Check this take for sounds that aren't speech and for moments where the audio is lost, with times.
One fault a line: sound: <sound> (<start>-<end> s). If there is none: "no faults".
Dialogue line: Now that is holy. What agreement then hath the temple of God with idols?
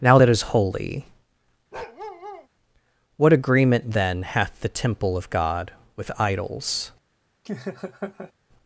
sound: bark (1.7-2.5 s)
sound: laugh (7.5-8.3 s)